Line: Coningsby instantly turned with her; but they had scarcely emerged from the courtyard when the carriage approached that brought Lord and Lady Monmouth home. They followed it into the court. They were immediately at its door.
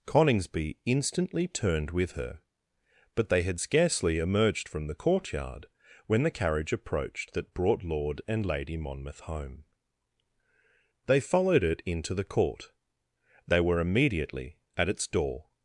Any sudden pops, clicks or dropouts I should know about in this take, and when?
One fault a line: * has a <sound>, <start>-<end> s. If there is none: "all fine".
all fine